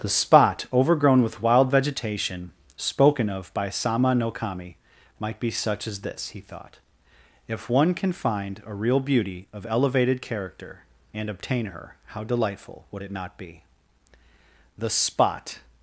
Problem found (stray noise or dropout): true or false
false